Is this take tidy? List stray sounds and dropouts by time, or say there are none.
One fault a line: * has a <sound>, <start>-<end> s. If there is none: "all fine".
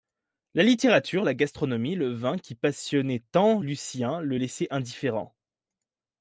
all fine